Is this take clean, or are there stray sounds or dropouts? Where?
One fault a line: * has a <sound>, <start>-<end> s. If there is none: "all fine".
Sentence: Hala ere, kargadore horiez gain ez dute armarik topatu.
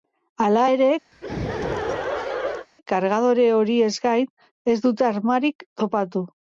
* has a laugh, 1.1-2.7 s